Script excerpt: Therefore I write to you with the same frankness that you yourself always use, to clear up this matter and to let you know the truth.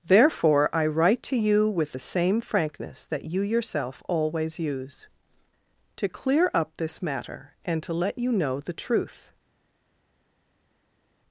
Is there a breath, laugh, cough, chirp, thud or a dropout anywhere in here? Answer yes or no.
no